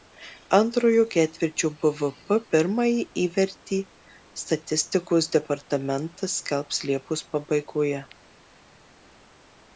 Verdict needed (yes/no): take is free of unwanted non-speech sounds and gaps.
yes